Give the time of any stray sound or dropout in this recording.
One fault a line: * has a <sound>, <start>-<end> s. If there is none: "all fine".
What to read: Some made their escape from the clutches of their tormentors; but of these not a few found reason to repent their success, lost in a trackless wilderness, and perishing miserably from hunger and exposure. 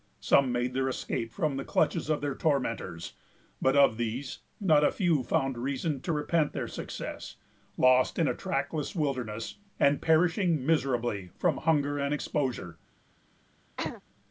* has a throat clearing, 13.8-14.0 s